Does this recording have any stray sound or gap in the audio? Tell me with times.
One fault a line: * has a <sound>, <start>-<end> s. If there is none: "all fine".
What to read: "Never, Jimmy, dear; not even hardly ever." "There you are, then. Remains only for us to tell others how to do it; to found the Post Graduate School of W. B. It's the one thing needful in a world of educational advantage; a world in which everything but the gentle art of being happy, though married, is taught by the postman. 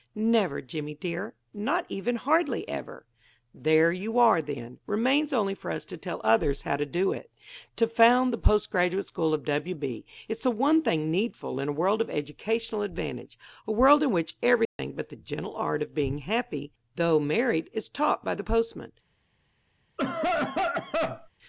* has a dropout, 14.6-14.8 s
* has a cough, 20.0-21.3 s